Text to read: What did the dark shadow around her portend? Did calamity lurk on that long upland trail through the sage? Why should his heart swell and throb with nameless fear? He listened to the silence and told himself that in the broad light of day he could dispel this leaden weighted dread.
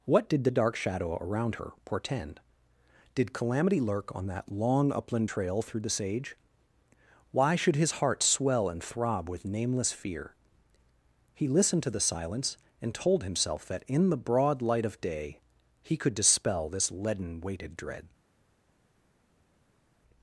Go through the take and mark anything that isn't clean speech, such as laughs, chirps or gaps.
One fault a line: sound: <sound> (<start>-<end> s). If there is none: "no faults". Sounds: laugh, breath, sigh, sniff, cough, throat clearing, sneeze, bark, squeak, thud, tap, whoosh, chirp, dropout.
no faults